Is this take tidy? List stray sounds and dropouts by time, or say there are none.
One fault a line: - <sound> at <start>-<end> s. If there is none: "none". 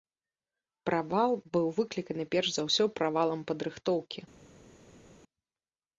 none